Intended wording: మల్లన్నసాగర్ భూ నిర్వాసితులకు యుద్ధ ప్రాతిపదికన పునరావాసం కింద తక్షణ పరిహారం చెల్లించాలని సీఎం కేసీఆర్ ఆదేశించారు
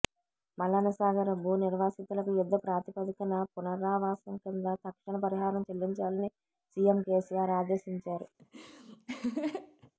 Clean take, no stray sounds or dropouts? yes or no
no